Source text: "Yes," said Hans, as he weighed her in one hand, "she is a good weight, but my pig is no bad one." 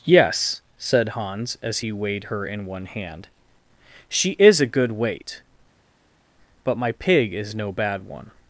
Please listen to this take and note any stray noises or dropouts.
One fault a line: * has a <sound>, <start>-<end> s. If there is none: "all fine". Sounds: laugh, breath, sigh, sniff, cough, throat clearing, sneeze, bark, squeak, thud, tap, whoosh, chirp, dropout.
all fine